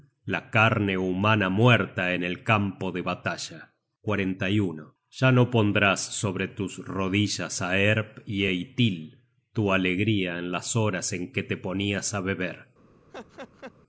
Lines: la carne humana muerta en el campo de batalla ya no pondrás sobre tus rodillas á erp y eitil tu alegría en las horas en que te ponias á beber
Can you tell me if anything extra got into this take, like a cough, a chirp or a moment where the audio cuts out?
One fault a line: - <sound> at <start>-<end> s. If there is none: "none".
- laugh at 13.1-13.7 s